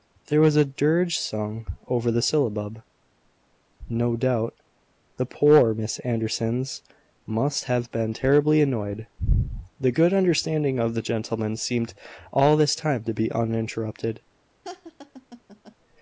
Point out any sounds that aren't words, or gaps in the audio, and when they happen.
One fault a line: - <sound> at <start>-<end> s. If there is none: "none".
- laugh at 14.6-15.8 s